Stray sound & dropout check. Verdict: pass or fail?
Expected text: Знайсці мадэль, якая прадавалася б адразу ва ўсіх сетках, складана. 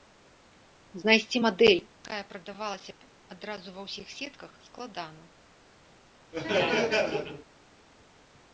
fail